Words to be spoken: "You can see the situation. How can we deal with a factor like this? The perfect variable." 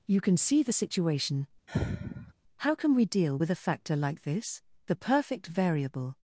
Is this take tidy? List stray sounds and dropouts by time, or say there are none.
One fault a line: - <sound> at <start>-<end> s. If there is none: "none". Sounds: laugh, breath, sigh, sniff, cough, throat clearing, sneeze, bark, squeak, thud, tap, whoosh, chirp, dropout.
- sigh at 1.7-2.3 s